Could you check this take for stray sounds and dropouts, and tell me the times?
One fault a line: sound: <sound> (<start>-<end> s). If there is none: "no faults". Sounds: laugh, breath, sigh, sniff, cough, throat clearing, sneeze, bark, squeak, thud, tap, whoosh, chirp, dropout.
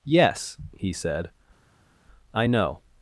no faults